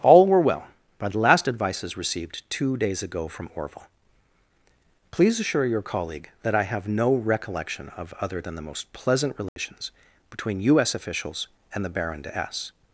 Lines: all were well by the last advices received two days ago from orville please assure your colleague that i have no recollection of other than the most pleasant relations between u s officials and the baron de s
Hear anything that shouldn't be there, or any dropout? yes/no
yes